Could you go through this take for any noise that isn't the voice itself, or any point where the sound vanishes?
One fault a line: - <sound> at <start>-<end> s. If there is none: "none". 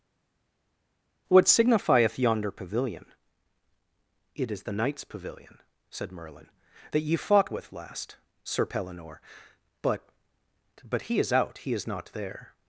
none